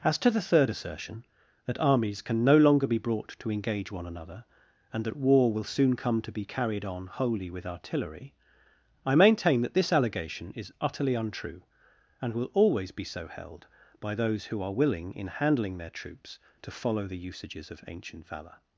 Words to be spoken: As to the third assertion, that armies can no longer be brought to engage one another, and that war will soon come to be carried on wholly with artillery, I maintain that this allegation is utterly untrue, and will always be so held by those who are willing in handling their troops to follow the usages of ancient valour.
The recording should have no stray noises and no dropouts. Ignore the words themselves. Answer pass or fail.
pass